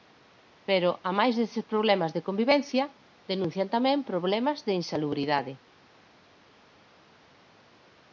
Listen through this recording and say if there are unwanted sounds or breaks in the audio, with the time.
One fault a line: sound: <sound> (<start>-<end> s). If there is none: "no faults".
no faults